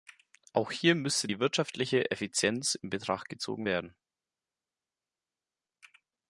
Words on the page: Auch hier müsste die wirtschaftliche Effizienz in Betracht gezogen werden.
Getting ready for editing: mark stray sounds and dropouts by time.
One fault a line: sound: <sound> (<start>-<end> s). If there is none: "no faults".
no faults